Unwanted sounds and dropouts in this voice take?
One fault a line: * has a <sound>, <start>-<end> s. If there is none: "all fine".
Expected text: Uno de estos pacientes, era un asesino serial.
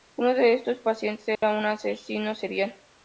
* has a dropout, 1.4-1.4 s